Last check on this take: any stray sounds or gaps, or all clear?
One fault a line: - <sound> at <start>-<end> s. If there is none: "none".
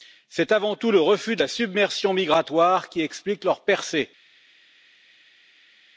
none